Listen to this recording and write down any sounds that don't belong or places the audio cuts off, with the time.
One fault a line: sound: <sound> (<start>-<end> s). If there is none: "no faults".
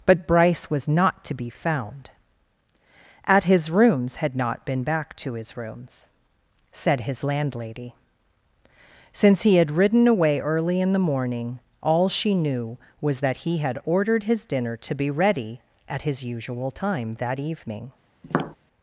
sound: tap (18.2-18.6 s)